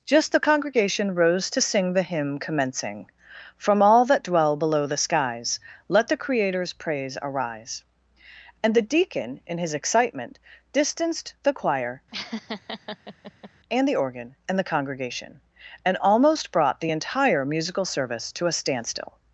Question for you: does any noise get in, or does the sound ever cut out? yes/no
yes